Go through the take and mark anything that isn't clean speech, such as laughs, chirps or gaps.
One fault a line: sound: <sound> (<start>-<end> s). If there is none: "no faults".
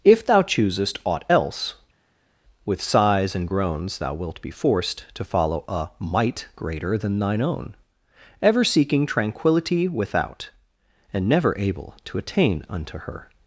no faults